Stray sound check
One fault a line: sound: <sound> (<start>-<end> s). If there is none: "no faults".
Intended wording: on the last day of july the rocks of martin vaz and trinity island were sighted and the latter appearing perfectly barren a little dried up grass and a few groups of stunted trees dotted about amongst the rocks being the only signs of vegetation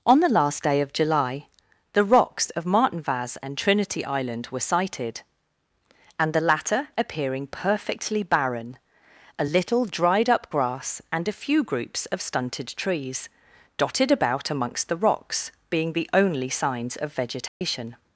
sound: dropout (17.5-17.6 s)